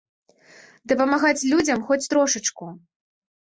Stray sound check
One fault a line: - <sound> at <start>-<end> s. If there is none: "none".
none